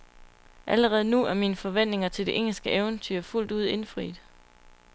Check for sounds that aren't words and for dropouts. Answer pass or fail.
pass